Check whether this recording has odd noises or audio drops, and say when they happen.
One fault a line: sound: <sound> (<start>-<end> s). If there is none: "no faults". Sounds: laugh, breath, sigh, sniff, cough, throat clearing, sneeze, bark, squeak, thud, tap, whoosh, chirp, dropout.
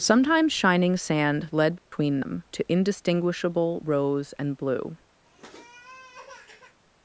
sound: dropout (1.8-1.9 s)
sound: sniff (5.2-6.8 s)